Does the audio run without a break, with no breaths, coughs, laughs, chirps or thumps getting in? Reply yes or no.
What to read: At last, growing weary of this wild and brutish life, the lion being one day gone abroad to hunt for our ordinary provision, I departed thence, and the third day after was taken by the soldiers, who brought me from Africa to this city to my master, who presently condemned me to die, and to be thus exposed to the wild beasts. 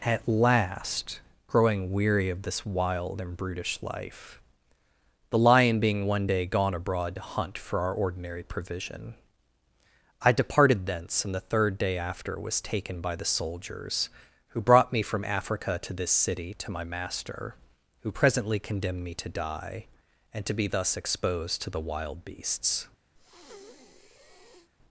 no